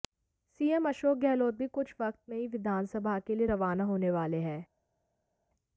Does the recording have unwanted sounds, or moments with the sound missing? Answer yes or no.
no